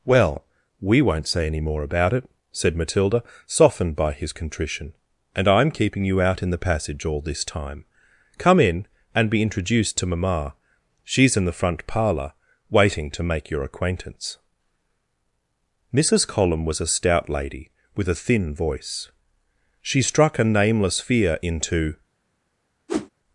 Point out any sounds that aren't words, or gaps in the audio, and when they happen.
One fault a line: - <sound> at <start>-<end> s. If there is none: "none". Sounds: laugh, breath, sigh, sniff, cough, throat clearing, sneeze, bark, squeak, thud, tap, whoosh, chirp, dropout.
- whoosh at 22.9-23.1 s